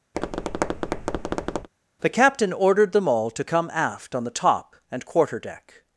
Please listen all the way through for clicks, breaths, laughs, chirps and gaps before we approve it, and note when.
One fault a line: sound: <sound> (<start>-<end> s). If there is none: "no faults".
sound: tap (0.1-1.7 s)